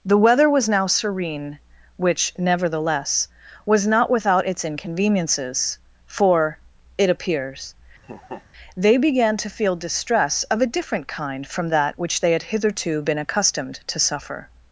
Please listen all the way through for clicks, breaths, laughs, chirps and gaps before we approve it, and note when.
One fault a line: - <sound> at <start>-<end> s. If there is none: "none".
- laugh at 8.0-8.4 s